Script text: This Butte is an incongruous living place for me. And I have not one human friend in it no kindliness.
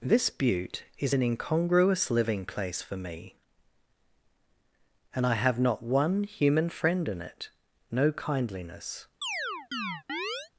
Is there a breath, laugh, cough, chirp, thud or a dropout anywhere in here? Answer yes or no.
yes